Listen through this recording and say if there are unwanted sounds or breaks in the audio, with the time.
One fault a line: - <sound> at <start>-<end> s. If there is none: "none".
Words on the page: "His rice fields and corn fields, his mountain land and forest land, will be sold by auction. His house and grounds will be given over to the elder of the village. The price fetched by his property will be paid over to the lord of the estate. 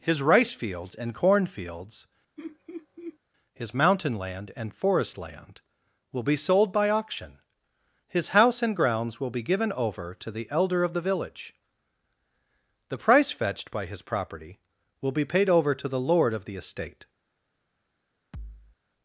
- laugh at 2.4-3.2 s
- thud at 18.3-18.8 s